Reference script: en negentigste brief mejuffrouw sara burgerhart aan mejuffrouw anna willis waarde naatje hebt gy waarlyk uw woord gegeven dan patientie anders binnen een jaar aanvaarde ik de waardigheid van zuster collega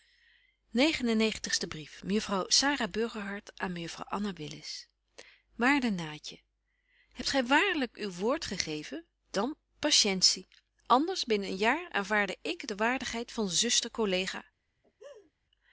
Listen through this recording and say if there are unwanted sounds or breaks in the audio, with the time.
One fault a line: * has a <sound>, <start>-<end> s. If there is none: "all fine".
* has a laugh, 14.8-15.3 s